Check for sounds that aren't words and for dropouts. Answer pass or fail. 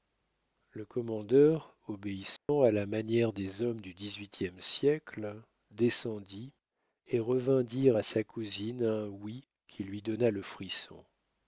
fail